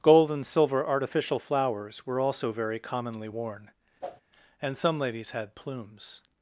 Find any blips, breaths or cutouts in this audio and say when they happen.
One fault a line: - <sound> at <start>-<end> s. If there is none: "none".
- whoosh at 4.0-4.2 s